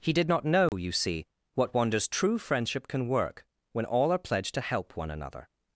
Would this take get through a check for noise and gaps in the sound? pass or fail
fail